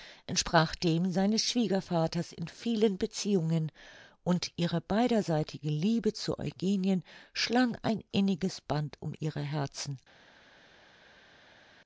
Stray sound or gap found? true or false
false